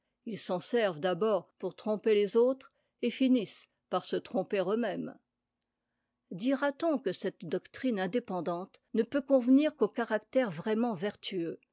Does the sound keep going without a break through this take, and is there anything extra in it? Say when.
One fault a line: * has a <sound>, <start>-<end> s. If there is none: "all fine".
all fine